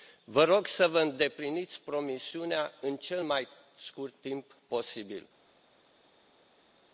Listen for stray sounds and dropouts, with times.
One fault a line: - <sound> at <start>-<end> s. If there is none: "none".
none